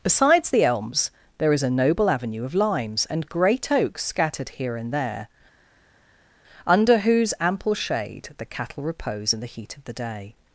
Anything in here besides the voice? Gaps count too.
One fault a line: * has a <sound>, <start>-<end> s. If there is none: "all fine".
all fine